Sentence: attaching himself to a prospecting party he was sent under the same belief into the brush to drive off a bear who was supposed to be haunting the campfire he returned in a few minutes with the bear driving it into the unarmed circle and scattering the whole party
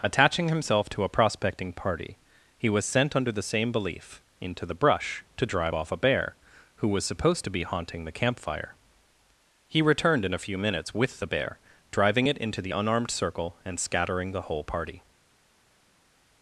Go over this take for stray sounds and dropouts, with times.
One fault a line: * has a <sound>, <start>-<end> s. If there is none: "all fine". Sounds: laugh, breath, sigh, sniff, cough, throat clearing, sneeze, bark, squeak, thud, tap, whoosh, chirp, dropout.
all fine